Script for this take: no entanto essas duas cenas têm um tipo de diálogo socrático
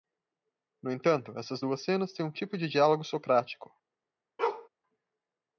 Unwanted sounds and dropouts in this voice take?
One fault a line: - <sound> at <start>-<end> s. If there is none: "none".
- bark at 4.4-4.7 s